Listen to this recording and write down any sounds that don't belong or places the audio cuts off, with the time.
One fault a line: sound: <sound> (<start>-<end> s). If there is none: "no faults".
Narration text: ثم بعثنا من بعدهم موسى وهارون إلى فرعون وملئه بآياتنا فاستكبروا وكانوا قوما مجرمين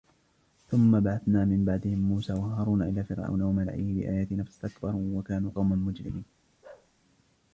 sound: bark (6.6-6.9 s)